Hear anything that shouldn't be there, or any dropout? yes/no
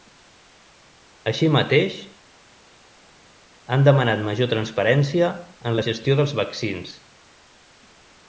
no